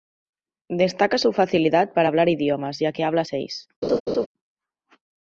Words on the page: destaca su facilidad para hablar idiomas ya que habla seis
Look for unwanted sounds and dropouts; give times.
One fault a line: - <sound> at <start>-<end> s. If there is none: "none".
- laugh at 3.8-4.3 s